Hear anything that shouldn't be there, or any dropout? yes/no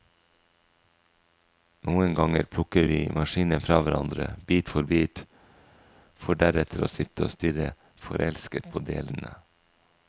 no